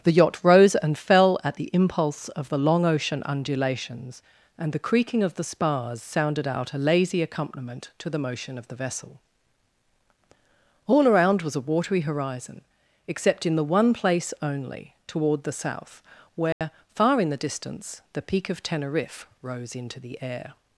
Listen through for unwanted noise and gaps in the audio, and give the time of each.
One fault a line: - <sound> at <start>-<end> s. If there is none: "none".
- dropout at 16.5-16.6 s